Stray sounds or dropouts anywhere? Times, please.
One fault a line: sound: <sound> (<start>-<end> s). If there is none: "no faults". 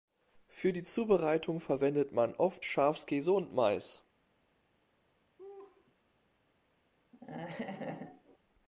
sound: laugh (5.4-5.9 s)
sound: laugh (7.1-8.4 s)